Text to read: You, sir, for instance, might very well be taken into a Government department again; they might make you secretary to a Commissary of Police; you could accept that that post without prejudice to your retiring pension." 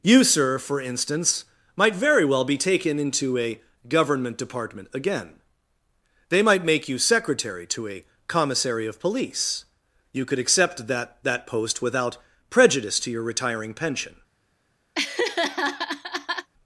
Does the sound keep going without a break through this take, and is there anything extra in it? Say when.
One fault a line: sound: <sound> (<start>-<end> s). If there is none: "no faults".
sound: laugh (14.9-16.5 s)